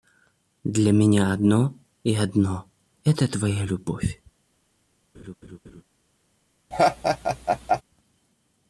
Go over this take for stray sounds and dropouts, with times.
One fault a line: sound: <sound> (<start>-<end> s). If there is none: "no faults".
sound: laugh (5.1-5.8 s)
sound: laugh (6.7-7.8 s)